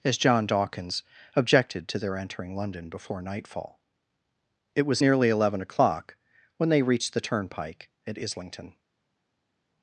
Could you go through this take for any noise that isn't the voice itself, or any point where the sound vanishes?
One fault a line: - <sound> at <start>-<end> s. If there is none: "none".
none